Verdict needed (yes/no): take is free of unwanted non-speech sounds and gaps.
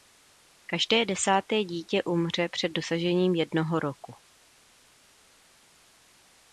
yes